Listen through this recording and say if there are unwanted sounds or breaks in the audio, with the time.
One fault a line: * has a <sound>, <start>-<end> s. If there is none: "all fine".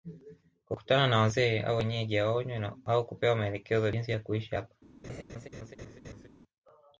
* has a laugh, 5.0-6.3 s